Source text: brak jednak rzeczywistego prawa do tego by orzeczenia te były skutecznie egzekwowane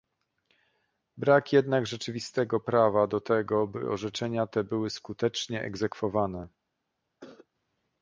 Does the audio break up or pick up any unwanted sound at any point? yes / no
yes